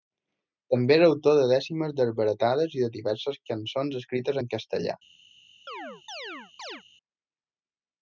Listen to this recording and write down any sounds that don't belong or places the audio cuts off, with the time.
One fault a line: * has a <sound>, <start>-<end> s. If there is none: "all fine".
* has a chirp, 5.7-6.8 s